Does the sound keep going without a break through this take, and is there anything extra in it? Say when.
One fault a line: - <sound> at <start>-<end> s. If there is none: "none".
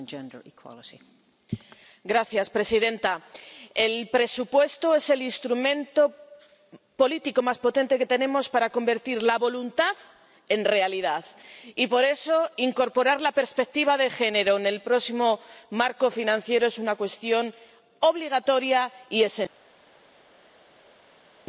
none